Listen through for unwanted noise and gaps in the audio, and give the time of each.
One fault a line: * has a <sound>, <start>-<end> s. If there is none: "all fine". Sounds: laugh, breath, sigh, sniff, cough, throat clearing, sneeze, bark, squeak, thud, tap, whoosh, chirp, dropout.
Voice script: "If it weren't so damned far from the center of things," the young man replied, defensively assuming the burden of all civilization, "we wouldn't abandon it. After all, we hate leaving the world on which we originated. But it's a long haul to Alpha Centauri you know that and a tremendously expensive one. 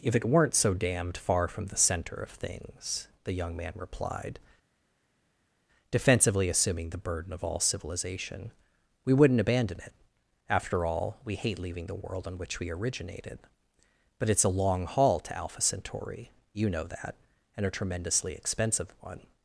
all fine